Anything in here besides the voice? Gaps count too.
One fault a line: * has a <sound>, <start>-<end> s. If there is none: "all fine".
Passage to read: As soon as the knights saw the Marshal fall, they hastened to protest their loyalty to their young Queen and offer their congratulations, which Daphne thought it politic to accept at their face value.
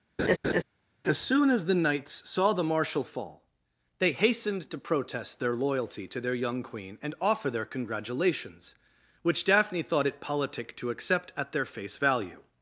* has a laugh, 0.2-0.6 s